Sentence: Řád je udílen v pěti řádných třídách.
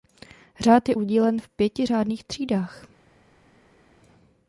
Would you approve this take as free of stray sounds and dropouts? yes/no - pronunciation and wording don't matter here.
yes